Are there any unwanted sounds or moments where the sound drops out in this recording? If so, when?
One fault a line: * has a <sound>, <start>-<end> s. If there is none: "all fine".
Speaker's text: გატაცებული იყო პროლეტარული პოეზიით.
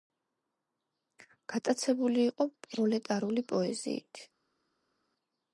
all fine